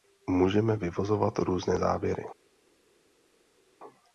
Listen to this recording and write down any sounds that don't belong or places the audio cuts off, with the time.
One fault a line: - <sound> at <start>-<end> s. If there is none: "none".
none